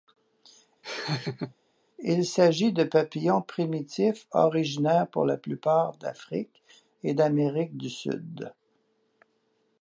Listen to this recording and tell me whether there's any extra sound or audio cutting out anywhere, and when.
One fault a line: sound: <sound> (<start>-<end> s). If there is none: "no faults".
sound: laugh (0.8-1.5 s)